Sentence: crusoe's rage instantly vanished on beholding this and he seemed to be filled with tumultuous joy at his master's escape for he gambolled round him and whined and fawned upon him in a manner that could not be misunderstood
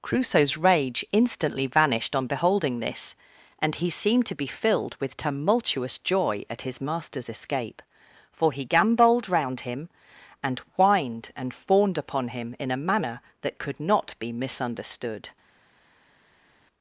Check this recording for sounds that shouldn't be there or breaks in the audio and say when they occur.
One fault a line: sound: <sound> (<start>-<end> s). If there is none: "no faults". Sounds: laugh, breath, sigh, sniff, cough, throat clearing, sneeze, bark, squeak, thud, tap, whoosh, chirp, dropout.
no faults